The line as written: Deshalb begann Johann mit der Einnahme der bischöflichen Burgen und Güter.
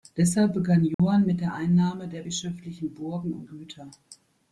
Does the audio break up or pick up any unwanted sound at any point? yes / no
yes